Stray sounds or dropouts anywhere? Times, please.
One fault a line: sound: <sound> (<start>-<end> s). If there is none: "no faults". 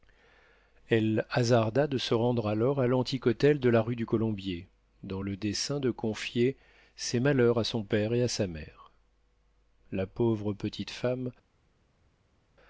no faults